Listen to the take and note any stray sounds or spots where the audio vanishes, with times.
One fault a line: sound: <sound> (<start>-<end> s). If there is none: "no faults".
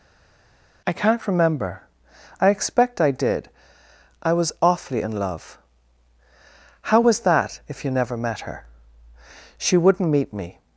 no faults